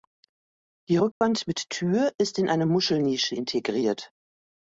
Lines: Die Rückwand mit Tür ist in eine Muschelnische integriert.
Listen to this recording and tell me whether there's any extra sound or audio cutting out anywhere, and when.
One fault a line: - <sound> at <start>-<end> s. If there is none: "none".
- dropout at 1.1-1.2 s